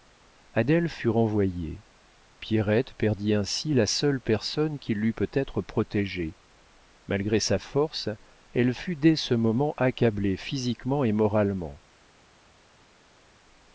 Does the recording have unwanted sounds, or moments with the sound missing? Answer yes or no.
no